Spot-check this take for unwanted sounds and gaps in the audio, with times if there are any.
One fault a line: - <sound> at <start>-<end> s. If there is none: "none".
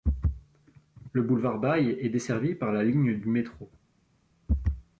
none